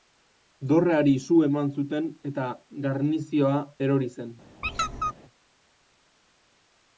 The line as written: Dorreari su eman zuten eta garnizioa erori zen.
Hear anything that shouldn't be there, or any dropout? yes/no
yes